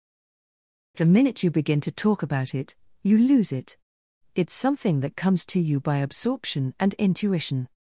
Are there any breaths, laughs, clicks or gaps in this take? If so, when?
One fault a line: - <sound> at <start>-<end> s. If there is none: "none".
none